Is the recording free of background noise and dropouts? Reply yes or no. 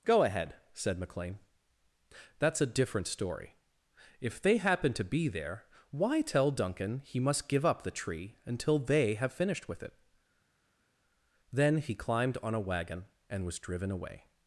yes